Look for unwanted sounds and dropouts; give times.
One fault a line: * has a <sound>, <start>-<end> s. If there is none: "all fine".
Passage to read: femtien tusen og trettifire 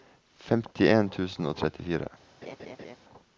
* has a laugh, 2.4-3.0 s